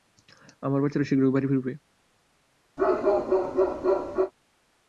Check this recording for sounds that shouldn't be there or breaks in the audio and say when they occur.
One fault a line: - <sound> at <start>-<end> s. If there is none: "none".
- bark at 2.8-4.3 s